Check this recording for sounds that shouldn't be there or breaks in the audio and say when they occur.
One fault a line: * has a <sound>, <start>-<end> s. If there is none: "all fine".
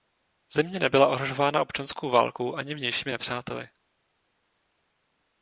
all fine